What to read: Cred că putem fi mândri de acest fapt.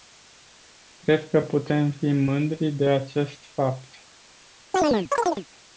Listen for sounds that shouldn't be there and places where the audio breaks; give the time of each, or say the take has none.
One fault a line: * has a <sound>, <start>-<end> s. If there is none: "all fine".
* has a chirp, 4.7-5.5 s